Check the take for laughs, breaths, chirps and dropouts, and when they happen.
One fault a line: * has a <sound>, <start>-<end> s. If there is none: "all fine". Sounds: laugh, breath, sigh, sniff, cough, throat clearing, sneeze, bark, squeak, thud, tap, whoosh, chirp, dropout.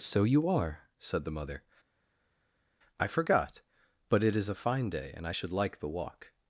all fine